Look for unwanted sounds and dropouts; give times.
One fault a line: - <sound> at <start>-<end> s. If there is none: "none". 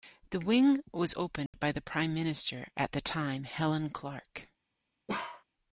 - dropout at 1.5-1.5 s
- bark at 5.1-5.4 s